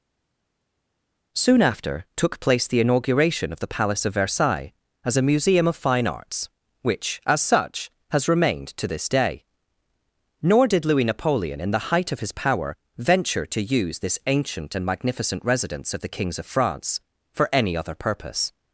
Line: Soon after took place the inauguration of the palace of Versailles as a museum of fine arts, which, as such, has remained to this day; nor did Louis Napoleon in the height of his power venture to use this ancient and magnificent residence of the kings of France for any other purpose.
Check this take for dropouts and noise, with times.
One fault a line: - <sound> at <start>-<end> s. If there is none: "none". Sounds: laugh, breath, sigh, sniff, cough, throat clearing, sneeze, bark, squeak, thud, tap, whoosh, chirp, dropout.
none